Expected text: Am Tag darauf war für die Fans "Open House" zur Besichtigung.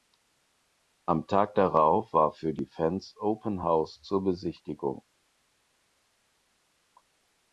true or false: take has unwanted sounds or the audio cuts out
false